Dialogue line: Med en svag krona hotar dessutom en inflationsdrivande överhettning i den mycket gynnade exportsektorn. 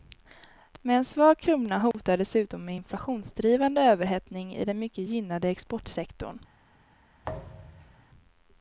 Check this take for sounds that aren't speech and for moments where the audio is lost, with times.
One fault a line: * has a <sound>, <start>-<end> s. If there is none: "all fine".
* has a dropout, 1.9-1.9 s
* has a thud, 7.2-8.1 s